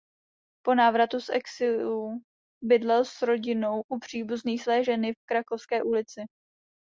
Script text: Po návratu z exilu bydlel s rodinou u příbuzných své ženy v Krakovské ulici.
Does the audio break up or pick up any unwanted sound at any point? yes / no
no